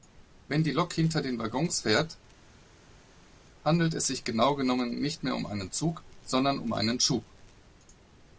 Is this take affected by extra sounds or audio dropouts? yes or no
no